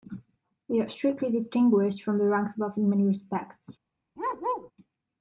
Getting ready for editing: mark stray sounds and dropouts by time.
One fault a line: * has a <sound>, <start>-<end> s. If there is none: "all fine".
* has a bark, 4.2-4.7 s